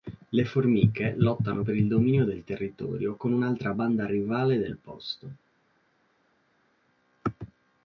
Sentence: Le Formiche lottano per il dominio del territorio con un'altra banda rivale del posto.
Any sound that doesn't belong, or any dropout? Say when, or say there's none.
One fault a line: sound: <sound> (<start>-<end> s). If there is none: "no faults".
no faults